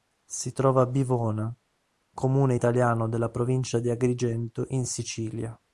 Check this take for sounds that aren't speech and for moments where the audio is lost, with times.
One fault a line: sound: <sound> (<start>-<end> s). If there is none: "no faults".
no faults